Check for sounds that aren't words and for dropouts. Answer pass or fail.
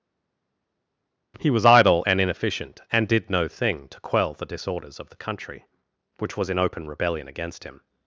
pass